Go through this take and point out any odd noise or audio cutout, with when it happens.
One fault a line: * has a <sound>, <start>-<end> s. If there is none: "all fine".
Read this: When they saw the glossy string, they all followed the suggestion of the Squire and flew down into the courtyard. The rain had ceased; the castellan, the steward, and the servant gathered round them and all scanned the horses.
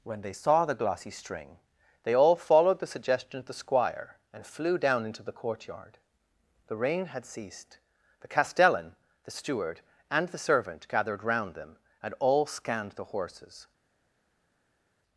all fine